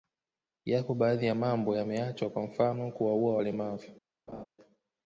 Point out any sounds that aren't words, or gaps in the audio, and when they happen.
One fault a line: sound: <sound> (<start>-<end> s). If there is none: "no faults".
sound: laugh (4.3-4.5 s)